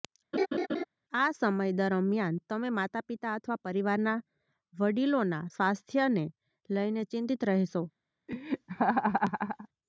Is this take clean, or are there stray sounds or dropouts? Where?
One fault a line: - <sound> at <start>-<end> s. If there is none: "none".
- laugh at 0.3-0.8 s
- laugh at 8.3-9.7 s